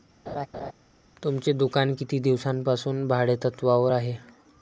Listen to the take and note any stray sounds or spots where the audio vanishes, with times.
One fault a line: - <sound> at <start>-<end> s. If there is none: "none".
- laugh at 0.3-0.7 s